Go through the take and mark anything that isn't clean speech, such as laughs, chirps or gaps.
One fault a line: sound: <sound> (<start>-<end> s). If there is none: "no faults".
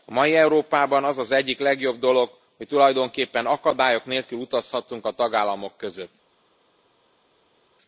no faults